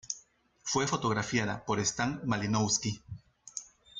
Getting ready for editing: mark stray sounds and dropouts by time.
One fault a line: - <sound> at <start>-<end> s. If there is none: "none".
none